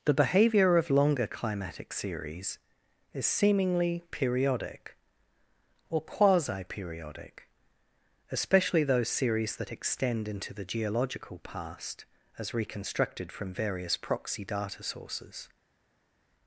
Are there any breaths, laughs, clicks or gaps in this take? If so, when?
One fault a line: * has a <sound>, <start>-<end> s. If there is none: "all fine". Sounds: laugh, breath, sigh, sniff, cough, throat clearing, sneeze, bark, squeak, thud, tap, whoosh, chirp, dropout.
all fine